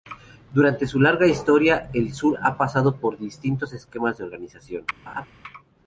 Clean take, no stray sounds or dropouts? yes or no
no